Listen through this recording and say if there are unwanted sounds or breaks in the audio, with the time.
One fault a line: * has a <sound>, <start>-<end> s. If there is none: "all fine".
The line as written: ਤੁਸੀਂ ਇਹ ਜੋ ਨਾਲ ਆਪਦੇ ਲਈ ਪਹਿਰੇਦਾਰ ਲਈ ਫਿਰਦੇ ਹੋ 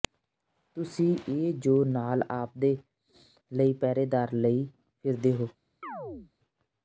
* has a chirp, 5.8-6.3 s